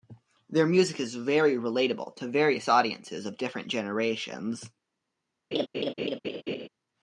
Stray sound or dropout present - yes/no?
yes